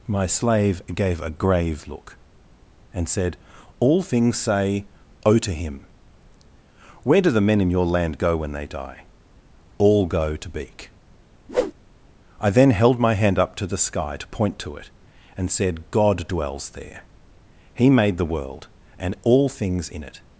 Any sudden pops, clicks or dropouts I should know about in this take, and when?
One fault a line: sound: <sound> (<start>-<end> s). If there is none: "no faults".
sound: whoosh (11.5-11.7 s)